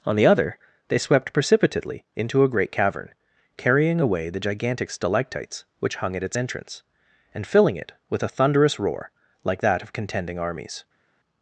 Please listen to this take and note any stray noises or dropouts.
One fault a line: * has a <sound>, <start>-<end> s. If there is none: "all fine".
all fine